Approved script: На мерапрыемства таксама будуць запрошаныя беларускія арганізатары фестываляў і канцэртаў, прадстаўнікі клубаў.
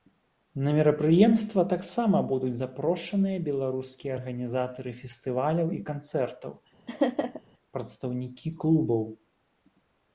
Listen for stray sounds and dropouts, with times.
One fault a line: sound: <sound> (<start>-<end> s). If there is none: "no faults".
sound: laugh (6.9-7.4 s)